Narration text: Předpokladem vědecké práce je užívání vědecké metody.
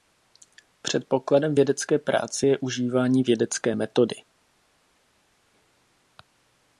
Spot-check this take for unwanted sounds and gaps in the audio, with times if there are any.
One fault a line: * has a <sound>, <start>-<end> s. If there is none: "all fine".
all fine